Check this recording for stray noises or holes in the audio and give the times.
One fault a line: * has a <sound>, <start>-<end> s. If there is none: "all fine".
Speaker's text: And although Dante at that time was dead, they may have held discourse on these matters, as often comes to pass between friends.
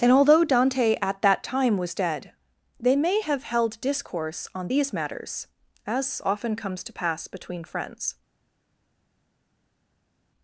all fine